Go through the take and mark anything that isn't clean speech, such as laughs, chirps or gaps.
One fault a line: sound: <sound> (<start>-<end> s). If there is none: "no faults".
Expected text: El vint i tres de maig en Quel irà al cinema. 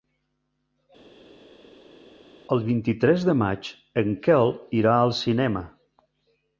no faults